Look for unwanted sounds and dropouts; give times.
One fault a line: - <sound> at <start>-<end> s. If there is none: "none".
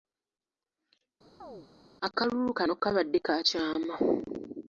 - chirp at 1.4-1.7 s